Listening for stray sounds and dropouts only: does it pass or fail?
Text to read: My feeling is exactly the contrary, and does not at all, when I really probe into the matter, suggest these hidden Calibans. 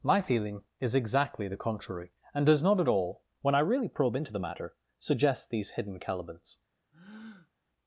fail